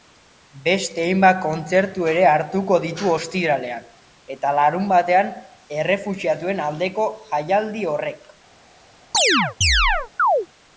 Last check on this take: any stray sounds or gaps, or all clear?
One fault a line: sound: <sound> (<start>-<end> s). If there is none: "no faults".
sound: chirp (9.1-10.5 s)